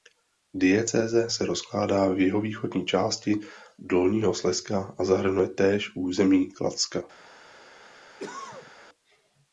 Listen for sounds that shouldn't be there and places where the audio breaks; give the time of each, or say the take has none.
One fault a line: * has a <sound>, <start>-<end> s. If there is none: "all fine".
* has a cough, 8.2-8.7 s